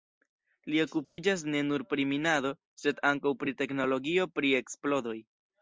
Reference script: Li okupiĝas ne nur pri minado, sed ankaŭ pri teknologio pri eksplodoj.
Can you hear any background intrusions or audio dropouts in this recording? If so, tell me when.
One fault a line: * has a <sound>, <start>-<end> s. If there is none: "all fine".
* has a dropout, 1.0-1.2 s